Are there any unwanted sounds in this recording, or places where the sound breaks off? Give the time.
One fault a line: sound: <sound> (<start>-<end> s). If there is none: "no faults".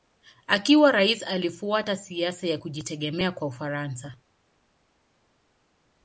no faults